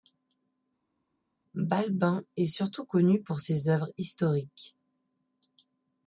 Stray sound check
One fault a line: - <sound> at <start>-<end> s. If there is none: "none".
none